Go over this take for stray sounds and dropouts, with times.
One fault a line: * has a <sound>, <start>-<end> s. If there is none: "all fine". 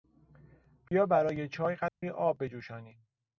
* has a dropout, 0.9-0.9 s
* has a dropout, 1.9-2.0 s